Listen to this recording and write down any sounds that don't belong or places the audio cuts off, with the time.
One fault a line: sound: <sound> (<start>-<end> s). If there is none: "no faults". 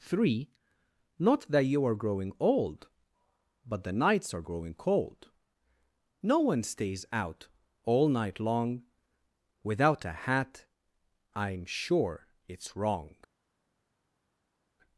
no faults